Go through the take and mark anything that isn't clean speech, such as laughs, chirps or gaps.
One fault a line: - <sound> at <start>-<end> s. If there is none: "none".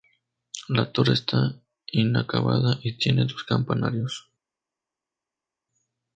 none